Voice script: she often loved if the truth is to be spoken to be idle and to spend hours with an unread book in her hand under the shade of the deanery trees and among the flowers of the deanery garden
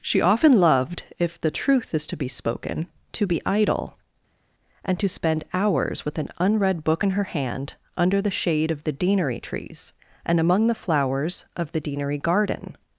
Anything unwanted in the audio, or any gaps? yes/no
no